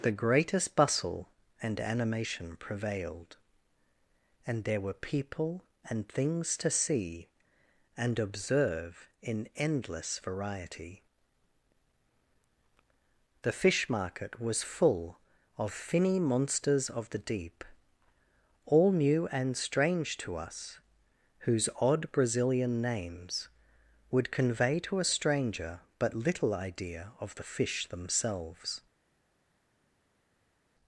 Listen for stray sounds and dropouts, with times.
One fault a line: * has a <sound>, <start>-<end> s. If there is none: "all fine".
all fine